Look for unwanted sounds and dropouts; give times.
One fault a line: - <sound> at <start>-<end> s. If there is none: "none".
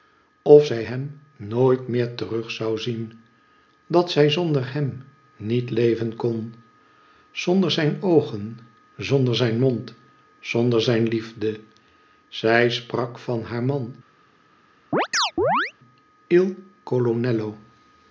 - chirp at 14.9-15.7 s